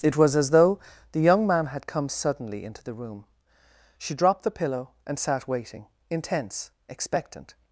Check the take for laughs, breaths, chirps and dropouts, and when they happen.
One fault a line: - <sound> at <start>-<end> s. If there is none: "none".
none